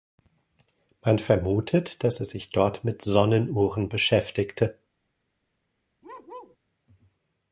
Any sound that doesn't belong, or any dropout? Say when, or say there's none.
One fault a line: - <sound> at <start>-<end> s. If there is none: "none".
- bark at 6.0-6.6 s